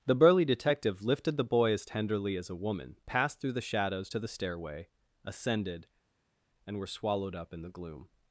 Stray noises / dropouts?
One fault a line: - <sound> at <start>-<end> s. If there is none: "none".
none